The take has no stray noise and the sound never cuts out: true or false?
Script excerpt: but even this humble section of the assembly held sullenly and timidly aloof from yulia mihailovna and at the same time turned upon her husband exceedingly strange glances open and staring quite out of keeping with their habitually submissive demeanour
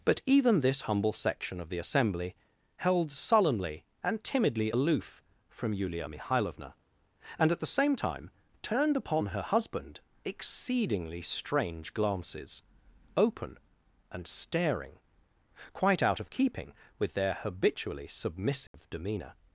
false